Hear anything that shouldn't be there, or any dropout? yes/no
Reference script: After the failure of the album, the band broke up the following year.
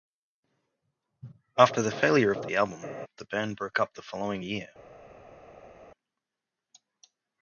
no